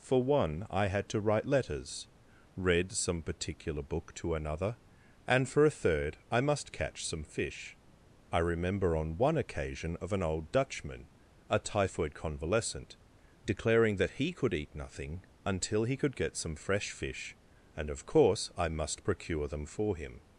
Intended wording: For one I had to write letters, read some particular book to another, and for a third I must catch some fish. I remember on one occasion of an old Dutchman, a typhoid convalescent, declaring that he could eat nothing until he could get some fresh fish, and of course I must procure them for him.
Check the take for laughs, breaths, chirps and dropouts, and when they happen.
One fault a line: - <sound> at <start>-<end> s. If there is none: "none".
none